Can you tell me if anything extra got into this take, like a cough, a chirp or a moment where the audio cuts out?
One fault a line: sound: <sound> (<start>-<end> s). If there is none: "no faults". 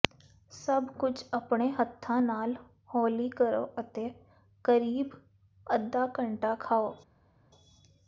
no faults